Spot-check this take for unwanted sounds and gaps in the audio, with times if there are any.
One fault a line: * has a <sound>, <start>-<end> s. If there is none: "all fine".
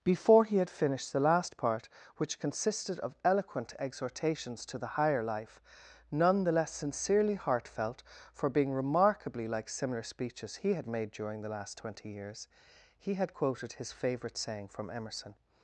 all fine